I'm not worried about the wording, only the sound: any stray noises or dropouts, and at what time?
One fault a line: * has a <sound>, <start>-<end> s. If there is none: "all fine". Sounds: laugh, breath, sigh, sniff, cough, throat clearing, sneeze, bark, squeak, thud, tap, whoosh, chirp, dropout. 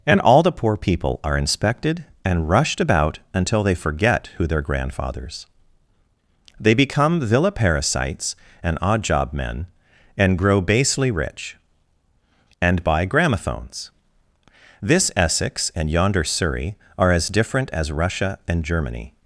all fine